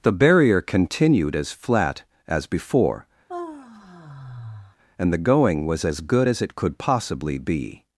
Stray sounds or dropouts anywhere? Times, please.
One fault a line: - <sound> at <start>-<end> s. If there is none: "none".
- sigh at 3.3-4.8 s